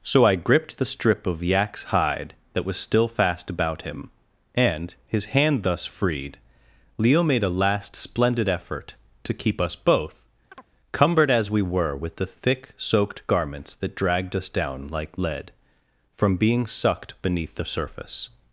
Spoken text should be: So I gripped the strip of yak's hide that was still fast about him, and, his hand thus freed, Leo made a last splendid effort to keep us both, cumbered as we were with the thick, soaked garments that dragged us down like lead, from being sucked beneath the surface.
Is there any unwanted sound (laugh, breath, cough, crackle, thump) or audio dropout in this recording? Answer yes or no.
yes